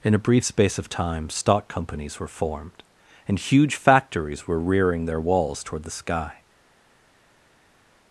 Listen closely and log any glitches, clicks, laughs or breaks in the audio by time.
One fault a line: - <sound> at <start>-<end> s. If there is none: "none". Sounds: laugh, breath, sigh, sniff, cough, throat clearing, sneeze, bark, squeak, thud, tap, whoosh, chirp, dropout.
none